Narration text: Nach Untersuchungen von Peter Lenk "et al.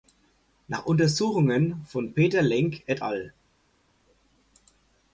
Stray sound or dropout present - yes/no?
no